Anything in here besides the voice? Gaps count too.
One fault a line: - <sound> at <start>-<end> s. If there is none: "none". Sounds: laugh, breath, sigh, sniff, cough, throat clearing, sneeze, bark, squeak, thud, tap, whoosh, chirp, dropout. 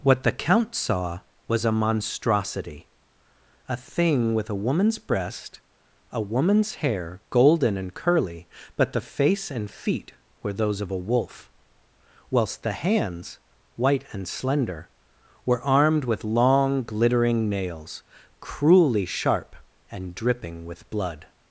none